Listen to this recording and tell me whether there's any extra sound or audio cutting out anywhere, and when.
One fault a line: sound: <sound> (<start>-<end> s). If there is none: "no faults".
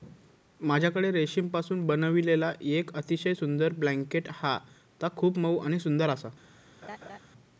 sound: laugh (6.8-7.2 s)